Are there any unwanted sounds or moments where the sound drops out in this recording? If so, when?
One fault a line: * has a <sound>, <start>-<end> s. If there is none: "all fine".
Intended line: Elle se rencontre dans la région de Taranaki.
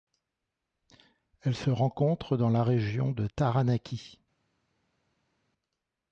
all fine